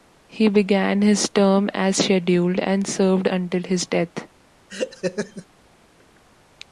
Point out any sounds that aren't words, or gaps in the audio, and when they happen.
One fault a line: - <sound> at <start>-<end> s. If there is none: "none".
- laugh at 4.7-5.5 s